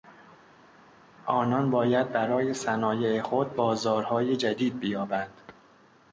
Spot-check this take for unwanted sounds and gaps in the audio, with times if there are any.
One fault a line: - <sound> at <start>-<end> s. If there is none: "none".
none